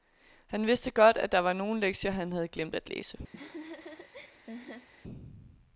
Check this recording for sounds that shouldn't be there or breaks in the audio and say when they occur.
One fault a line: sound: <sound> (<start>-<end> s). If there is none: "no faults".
sound: laugh (3.3-4.9 s)